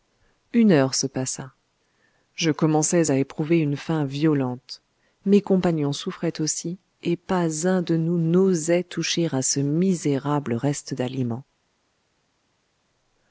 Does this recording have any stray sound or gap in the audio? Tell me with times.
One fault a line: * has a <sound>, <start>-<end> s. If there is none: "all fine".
all fine